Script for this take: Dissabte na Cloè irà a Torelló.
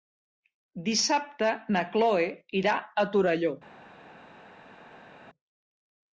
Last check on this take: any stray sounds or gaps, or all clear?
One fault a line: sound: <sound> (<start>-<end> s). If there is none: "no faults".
no faults